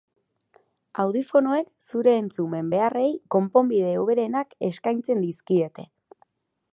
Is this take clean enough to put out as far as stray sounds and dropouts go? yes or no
yes